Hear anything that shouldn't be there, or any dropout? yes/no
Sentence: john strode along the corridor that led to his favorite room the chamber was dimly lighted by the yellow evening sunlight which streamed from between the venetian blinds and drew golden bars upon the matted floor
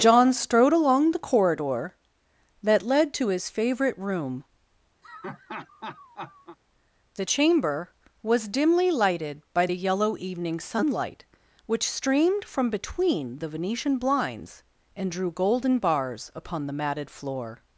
yes